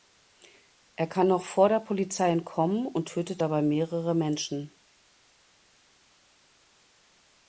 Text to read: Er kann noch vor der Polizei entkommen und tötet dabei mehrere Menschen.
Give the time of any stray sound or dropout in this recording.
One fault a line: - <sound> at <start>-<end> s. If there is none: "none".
none